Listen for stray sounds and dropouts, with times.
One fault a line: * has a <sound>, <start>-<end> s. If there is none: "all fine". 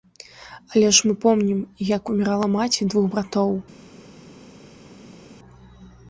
all fine